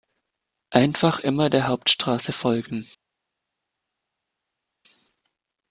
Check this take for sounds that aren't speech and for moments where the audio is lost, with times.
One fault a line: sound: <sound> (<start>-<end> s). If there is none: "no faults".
no faults